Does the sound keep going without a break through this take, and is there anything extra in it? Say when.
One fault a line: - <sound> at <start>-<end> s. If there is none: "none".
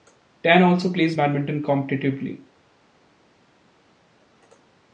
none